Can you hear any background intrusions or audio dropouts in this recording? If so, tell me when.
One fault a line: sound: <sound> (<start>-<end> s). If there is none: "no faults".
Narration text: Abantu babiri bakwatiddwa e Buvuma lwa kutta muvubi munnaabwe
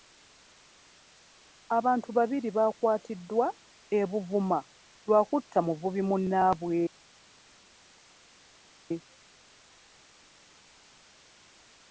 no faults